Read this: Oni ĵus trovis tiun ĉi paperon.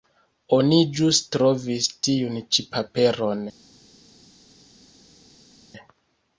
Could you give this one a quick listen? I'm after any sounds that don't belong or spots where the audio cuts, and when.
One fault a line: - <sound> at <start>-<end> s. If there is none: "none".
none